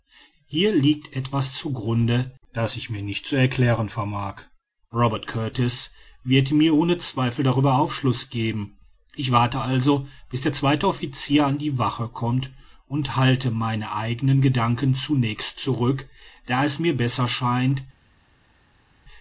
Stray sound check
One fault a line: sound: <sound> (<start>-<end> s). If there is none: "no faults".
no faults